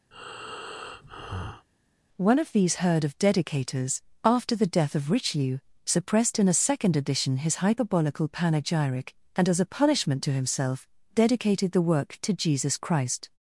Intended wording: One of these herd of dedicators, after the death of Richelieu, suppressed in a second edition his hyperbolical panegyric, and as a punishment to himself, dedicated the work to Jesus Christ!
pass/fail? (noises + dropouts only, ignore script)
fail